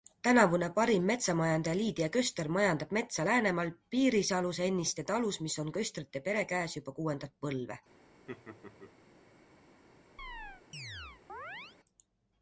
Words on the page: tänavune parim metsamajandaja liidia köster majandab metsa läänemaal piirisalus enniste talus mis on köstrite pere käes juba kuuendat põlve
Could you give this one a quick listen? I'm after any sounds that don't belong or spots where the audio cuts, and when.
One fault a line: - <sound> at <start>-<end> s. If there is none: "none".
- laugh at 8.3-8.9 s
- chirp at 10.2-11.8 s